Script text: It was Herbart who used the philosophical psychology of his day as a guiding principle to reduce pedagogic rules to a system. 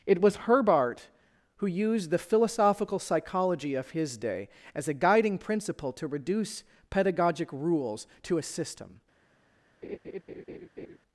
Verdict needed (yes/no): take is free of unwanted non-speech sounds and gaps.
no